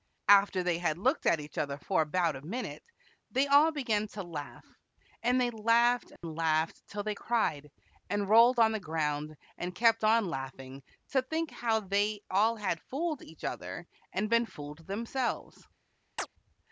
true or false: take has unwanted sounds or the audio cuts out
true